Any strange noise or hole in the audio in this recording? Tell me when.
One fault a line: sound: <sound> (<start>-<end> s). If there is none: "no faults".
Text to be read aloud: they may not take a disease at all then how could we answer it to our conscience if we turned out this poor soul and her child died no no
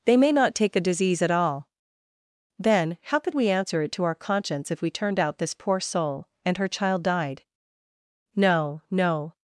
no faults